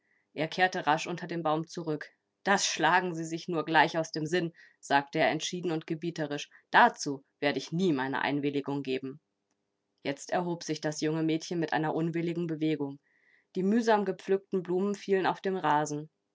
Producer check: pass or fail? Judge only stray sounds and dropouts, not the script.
pass